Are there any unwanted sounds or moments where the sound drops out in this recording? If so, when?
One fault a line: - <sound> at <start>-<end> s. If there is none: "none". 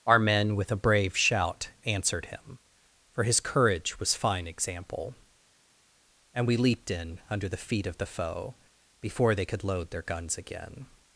none